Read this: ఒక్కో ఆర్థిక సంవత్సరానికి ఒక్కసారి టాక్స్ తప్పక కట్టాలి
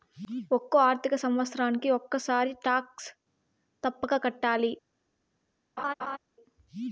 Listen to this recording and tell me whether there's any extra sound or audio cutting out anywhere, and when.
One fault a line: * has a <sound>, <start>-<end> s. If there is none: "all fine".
* has a laugh, 5.8-6.2 s